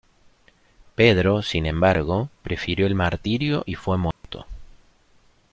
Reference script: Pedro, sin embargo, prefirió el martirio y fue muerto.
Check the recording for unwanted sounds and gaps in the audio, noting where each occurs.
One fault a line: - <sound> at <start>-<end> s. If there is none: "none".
- dropout at 4.1-4.2 s